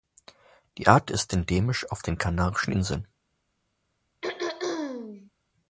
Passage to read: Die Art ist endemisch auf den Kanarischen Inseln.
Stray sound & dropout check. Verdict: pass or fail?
fail